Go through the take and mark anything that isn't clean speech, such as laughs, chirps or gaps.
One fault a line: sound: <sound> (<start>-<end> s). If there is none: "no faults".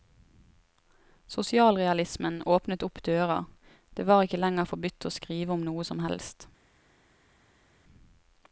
no faults